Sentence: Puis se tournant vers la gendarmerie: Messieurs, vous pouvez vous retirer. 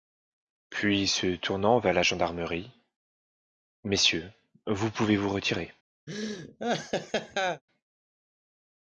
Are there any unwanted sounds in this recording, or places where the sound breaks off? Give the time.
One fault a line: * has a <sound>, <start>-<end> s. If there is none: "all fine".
* has a laugh, 6.1-7.6 s